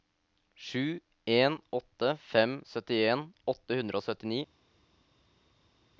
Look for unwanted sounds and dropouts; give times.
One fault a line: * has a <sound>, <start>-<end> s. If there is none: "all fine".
all fine